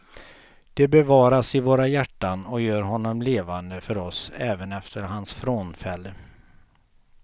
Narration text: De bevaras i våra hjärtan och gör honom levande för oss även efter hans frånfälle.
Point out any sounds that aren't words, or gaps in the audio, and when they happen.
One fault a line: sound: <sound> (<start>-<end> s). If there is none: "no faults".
no faults